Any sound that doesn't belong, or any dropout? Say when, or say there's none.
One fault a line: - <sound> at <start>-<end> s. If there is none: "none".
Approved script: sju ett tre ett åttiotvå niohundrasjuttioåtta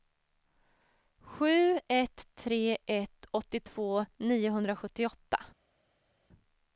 none